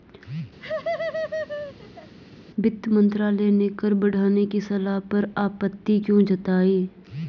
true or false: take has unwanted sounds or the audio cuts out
true